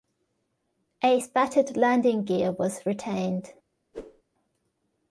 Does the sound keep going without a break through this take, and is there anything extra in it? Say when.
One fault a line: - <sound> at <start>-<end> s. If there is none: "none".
- whoosh at 3.9-4.2 s